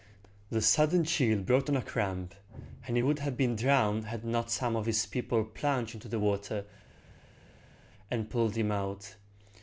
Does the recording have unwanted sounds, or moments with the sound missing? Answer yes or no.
no